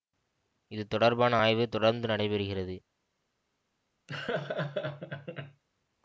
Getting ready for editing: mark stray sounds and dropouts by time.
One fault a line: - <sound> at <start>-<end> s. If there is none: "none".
- laugh at 4.1-5.6 s